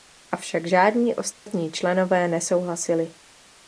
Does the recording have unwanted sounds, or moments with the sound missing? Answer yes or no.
yes